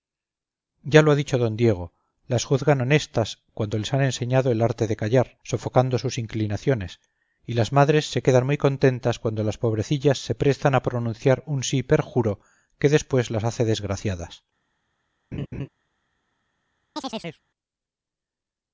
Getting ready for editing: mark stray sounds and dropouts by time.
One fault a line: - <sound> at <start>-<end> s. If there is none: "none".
- laugh at 15.3-15.7 s
- chirp at 17.0-17.4 s